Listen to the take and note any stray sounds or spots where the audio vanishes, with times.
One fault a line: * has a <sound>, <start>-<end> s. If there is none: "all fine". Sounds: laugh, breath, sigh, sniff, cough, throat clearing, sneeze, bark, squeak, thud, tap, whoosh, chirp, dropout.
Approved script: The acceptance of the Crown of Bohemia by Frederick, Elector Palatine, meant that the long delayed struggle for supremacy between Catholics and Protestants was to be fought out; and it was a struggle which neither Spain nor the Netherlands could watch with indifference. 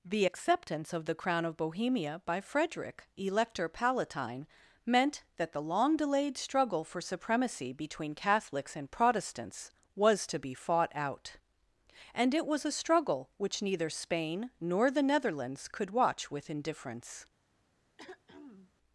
* has a throat clearing, 18.0-18.7 s